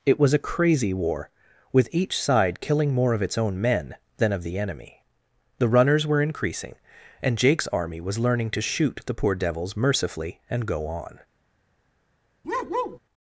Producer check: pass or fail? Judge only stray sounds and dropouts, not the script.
fail